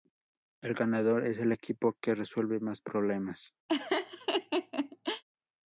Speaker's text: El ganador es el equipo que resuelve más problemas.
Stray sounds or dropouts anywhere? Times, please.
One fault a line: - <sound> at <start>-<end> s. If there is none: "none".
- laugh at 3.7-5.2 s